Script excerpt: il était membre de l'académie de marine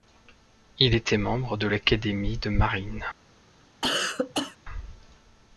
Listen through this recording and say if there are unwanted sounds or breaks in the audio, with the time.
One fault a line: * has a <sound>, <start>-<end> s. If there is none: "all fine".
* has a cough, 3.8-4.6 s